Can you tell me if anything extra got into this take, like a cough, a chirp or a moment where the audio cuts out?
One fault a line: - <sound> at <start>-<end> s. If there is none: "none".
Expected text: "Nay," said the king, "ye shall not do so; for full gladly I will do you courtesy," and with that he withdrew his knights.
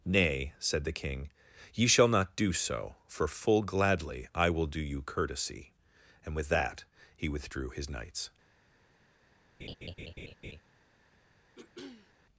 - laugh at 9.6-10.6 s
- throat clearing at 11.6-12.1 s